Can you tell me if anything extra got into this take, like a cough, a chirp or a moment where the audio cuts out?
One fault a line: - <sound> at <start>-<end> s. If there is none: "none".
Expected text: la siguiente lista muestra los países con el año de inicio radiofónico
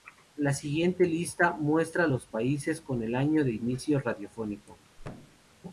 - thud at 5.0-5.5 s